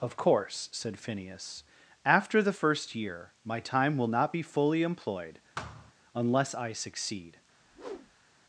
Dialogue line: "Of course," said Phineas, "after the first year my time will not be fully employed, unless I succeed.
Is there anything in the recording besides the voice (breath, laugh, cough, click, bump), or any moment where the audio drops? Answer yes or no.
yes